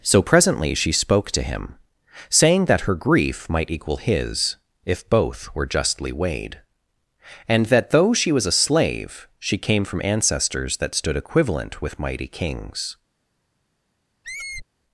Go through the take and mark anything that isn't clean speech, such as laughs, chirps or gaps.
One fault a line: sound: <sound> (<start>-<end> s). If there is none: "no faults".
sound: squeak (14.2-14.7 s)